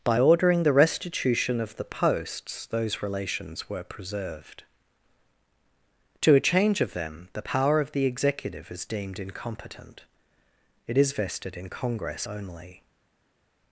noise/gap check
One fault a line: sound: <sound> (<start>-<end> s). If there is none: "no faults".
no faults